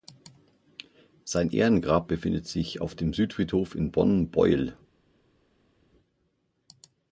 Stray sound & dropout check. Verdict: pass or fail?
pass